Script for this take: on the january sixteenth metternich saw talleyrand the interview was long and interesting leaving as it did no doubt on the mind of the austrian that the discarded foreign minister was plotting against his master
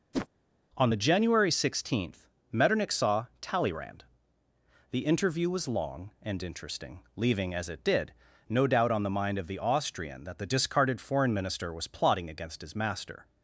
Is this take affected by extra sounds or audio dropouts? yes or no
yes